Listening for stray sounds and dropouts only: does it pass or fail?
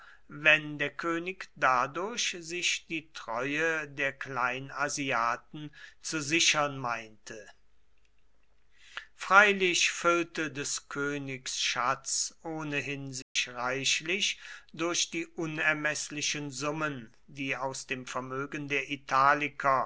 fail